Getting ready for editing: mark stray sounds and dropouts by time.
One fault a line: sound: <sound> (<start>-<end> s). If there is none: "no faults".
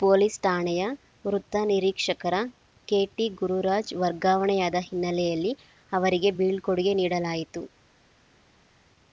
no faults